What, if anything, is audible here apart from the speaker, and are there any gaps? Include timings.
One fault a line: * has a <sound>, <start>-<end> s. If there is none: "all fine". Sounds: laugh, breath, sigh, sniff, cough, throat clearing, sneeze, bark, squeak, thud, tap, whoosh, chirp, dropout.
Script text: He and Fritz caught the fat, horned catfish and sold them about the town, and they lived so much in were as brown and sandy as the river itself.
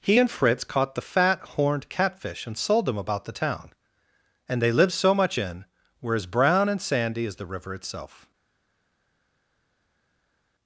all fine